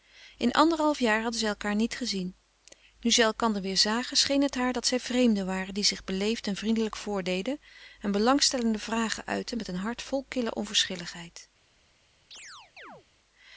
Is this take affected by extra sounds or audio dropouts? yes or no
yes